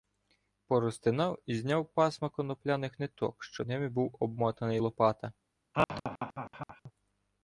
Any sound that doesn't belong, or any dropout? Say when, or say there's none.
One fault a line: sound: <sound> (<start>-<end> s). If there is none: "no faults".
sound: laugh (5.7-6.9 s)